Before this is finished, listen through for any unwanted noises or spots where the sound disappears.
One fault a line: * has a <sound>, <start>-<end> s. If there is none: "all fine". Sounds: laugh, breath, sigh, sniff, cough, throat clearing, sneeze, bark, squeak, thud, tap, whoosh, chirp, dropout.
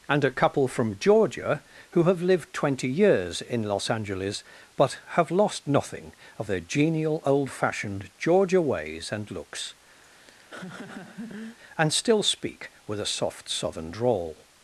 * has a laugh, 10.0-11.6 s